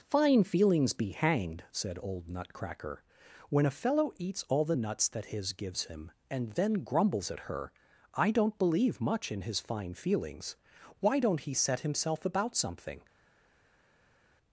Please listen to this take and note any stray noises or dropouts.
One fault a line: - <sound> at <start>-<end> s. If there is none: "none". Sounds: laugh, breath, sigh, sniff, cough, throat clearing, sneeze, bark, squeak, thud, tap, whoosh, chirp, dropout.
none